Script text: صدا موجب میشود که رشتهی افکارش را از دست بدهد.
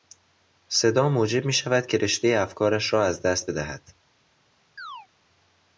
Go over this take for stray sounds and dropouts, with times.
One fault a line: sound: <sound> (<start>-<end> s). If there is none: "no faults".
sound: chirp (4.8-5.1 s)